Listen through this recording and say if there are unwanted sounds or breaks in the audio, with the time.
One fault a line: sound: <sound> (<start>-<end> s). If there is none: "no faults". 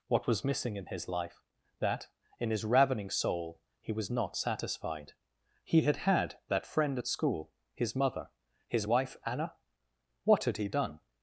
no faults